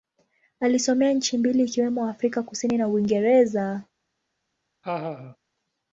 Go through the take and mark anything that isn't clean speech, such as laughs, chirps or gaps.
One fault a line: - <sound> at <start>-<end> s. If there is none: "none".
- laugh at 4.8-5.4 s